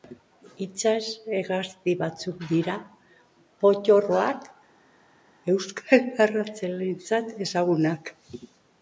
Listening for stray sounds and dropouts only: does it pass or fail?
pass